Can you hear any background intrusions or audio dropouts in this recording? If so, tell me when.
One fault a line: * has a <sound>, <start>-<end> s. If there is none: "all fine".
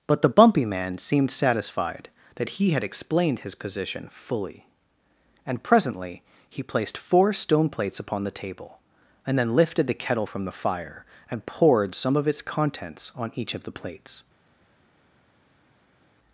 all fine